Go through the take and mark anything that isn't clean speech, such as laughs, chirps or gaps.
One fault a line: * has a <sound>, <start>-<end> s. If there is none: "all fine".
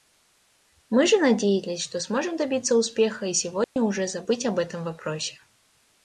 * has a dropout, 3.6-3.8 s